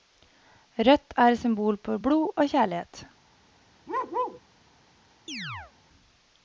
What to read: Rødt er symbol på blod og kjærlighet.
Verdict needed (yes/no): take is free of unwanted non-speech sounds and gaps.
no